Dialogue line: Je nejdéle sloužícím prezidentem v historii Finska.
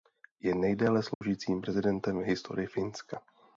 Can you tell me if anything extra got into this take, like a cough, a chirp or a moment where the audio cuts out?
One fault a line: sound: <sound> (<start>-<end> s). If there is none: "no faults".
sound: dropout (1.1-1.2 s)